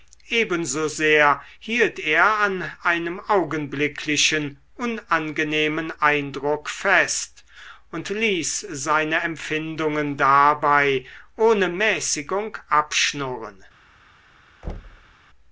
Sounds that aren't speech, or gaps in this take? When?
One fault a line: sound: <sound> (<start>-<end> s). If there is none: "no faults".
sound: thud (14.6-15.1 s)